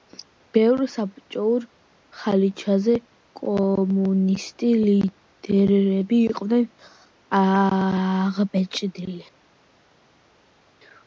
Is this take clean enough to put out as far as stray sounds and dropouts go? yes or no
yes